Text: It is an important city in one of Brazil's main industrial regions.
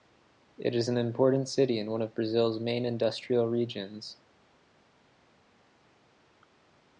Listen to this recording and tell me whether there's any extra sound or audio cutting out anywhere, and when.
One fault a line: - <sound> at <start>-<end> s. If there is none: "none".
none